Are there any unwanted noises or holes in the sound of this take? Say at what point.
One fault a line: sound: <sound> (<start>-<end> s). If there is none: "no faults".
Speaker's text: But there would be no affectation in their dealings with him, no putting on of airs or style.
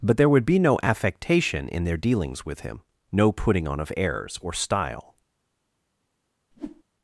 sound: whoosh (6.5-6.8 s)